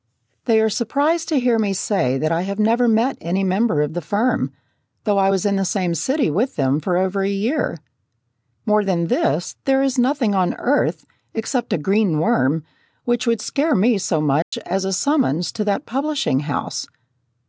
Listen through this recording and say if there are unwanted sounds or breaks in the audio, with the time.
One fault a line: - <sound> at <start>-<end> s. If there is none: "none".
- dropout at 14.4-14.5 s